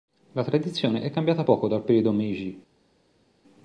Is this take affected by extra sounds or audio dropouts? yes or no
no